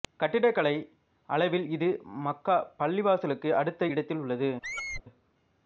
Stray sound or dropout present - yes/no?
yes